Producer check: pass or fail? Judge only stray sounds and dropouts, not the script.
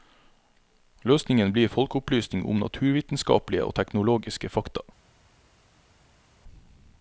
pass